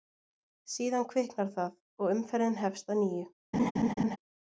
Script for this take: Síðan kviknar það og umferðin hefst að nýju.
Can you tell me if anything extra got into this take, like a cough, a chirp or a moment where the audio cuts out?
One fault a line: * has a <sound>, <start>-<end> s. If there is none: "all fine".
* has a laugh, 3.5-4.2 s